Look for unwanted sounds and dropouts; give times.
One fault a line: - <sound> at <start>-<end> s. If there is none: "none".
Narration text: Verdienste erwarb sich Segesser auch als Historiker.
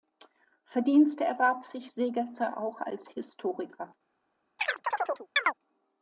- chirp at 4.6-5.5 s